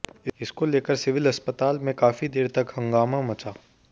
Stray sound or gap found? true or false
false